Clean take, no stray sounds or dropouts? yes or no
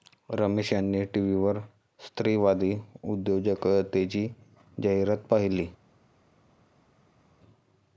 yes